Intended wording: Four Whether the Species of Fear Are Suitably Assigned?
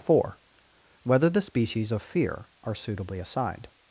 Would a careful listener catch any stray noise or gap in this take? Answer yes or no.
no